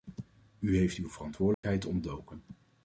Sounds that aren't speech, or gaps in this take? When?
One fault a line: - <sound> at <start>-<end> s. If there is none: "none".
- dropout at 1.5-1.6 s